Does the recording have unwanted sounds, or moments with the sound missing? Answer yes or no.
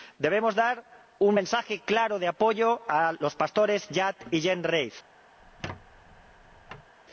yes